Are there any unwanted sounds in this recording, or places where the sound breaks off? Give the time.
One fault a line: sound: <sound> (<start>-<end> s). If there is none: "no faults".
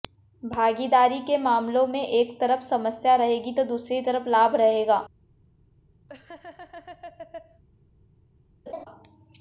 sound: laugh (6.1-7.6 s)
sound: laugh (8.7-8.9 s)